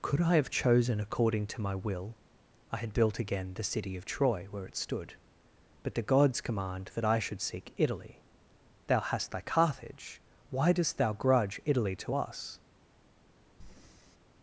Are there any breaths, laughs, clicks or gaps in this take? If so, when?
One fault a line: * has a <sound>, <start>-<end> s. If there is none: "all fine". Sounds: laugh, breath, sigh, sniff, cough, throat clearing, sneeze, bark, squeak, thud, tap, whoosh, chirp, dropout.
* has a breath, 13.6-14.2 s